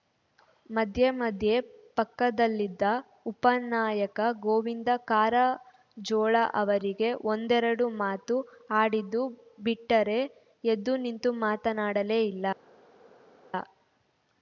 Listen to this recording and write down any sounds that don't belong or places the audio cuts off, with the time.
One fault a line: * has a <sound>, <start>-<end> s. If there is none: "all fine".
all fine